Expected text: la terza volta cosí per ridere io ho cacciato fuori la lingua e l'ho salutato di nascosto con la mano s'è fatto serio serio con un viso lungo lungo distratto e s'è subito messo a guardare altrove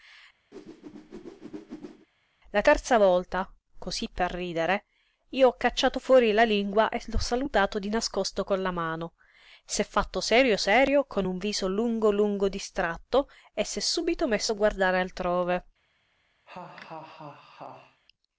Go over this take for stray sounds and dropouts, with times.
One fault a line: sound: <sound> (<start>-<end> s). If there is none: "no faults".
sound: whoosh (0.5-2.1 s)
sound: laugh (16.5-18.0 s)